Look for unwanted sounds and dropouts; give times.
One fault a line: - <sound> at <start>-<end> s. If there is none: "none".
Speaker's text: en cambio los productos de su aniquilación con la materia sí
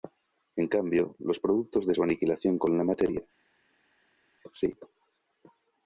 none